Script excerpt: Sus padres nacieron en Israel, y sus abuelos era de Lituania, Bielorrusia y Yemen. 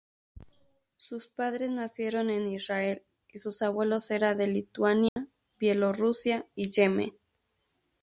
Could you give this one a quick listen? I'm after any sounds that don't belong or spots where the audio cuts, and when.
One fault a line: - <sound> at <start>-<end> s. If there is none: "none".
- dropout at 5.1-5.2 s